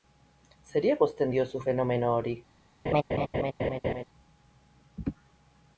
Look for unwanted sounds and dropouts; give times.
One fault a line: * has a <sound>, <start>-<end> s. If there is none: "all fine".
* has a laugh, 2.9-4.0 s